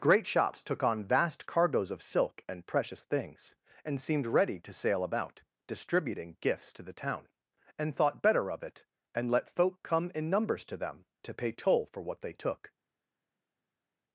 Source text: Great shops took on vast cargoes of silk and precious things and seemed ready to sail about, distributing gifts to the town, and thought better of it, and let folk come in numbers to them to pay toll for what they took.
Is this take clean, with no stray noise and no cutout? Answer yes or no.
yes